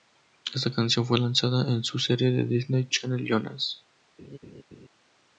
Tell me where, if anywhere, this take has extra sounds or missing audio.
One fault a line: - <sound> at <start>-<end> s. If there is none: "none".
- laugh at 4.2-4.9 s